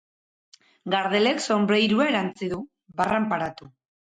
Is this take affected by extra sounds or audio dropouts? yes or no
no